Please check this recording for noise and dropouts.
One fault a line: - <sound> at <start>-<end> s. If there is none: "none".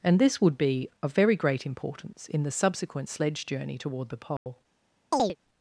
- dropout at 4.4-4.5 s
- chirp at 5.1-5.4 s